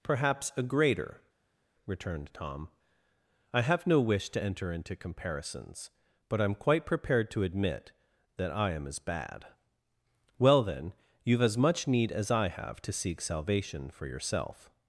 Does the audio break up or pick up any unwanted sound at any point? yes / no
no